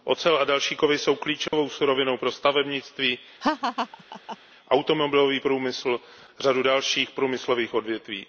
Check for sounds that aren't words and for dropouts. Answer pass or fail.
fail